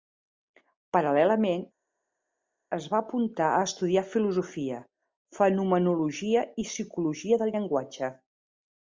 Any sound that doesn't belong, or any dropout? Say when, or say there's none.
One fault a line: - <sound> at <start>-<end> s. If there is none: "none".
none